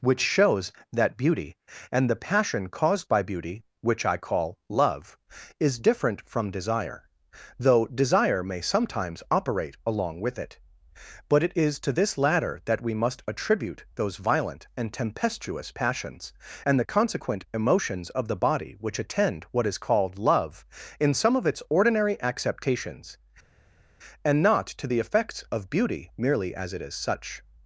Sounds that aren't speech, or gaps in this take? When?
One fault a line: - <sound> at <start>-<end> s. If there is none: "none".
none